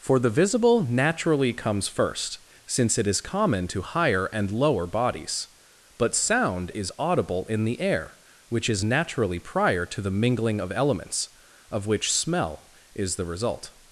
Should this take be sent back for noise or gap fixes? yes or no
no